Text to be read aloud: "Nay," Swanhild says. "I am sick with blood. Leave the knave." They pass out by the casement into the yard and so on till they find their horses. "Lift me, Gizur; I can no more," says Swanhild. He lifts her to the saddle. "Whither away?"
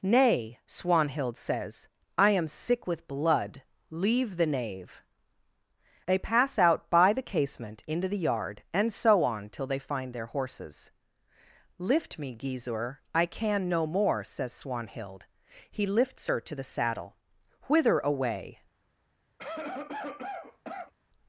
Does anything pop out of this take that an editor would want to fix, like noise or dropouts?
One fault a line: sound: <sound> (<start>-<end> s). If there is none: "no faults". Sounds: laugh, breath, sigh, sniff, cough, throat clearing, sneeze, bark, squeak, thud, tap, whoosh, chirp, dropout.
sound: cough (19.4-20.9 s)